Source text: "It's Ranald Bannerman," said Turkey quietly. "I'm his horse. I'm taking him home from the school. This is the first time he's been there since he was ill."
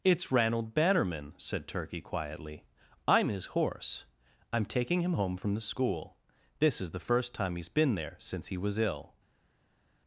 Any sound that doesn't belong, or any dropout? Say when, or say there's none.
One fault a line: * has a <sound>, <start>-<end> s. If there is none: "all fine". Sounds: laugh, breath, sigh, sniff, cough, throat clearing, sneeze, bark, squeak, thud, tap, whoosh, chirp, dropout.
all fine